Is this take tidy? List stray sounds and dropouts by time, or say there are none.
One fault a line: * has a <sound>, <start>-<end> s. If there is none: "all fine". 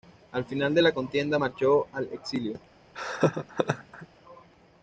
* has a laugh, 2.9-4.1 s